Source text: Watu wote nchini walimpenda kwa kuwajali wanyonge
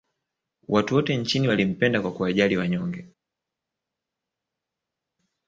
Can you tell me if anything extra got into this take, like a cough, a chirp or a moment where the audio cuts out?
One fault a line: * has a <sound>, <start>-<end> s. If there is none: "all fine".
all fine